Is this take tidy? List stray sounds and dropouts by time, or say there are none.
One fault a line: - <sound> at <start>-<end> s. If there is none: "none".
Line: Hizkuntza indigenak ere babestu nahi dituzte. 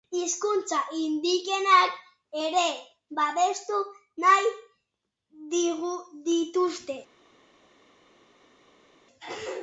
none